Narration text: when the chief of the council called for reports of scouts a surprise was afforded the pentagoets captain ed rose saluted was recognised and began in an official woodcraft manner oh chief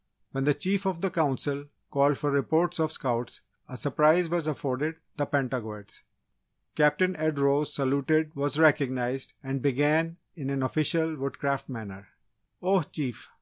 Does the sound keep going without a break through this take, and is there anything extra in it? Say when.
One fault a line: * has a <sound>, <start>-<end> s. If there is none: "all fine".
all fine